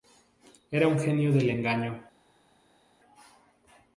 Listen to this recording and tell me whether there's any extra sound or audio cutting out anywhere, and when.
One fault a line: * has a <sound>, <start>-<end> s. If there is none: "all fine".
all fine